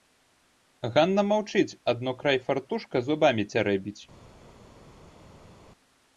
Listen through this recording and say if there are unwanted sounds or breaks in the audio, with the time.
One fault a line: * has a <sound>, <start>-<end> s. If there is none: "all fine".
all fine